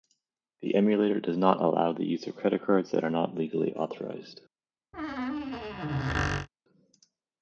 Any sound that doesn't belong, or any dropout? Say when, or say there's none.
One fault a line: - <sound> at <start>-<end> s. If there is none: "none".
- squeak at 4.9-6.5 s